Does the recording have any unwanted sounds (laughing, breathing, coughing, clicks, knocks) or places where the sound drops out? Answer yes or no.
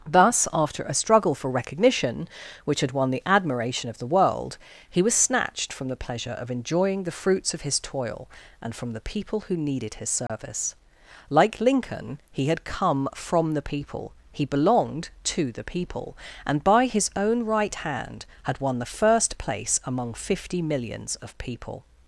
yes